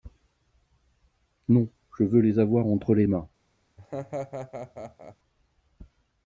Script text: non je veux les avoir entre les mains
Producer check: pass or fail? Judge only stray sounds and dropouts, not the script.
fail